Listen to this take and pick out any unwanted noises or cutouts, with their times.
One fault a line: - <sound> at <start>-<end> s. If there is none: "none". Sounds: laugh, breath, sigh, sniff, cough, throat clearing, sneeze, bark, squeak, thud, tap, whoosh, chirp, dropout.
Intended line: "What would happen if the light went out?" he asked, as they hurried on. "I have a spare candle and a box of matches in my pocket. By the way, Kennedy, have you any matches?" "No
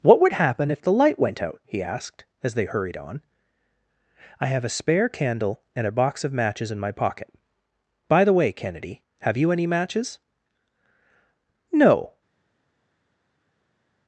none